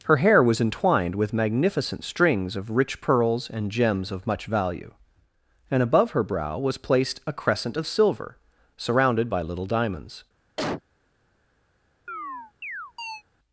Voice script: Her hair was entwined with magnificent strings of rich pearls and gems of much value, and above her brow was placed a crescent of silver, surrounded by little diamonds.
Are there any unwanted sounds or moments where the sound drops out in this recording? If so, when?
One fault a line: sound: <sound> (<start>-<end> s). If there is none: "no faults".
sound: cough (10.6-10.8 s)
sound: chirp (12.1-13.2 s)